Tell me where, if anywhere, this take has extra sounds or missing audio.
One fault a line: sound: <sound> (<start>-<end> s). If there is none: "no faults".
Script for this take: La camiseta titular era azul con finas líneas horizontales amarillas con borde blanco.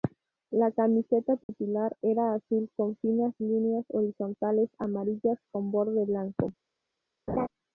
sound: dropout (1.4-1.5 s)
sound: laugh (7.3-7.5 s)